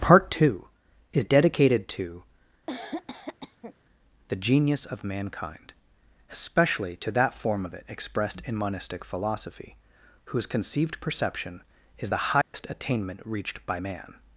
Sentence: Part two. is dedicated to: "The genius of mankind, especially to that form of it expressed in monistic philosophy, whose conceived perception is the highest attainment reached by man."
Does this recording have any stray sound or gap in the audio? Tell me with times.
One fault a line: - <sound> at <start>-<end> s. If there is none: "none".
- cough at 2.7-3.7 s
- dropout at 12.4-12.5 s